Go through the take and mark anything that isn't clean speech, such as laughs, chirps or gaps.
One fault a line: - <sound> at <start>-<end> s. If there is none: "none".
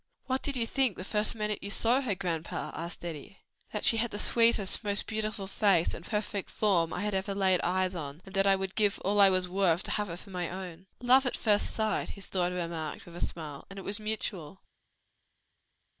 none